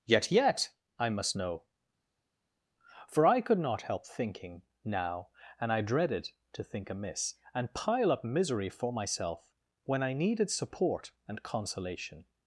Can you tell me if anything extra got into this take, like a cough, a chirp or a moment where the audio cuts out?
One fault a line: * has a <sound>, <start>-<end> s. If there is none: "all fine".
all fine